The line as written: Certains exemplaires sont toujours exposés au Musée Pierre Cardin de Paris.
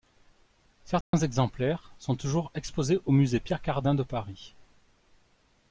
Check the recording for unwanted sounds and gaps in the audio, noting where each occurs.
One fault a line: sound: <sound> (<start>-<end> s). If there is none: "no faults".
sound: dropout (1.0-1.1 s)